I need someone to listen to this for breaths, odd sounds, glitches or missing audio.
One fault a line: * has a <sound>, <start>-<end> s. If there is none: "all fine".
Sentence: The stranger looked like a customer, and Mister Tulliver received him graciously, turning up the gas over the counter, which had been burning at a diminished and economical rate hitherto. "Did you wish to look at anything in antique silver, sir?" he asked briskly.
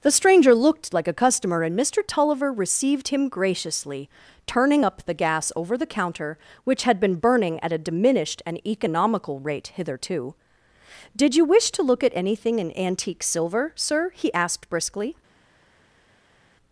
all fine